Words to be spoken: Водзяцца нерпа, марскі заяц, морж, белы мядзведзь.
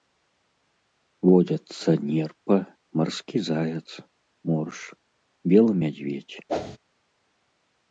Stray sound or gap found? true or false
true